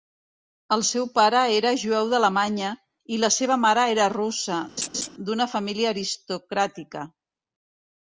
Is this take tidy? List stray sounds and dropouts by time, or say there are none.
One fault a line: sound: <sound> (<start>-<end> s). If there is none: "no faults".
sound: laugh (4.8-5.1 s)